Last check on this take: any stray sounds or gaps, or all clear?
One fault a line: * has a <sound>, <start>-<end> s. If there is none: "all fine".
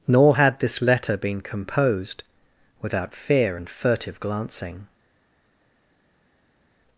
all fine